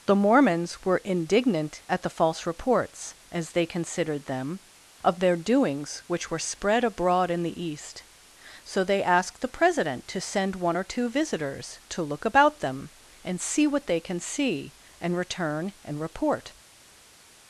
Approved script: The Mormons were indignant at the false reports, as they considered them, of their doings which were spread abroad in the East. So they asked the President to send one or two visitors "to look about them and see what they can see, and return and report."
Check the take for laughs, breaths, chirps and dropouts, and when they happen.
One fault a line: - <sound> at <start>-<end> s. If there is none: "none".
none